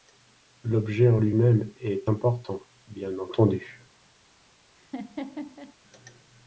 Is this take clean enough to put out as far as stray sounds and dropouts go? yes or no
no